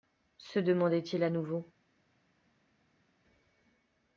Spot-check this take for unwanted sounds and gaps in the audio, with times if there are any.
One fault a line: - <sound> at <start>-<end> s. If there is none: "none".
none